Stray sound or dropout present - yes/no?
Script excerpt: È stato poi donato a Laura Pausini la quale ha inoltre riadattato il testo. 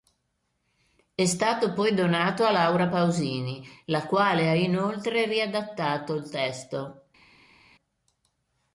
no